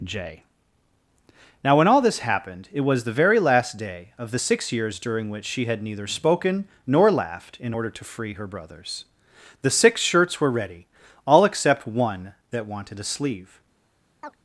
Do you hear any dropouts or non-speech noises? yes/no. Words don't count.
yes